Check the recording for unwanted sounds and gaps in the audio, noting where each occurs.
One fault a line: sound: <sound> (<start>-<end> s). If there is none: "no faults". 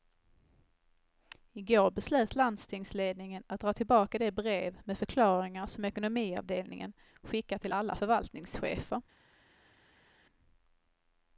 no faults